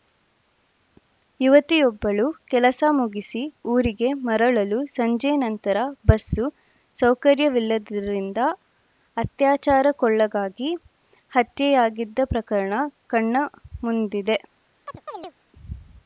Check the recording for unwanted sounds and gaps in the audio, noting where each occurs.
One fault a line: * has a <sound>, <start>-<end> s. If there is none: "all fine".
* has a chirp, 14.9-15.3 s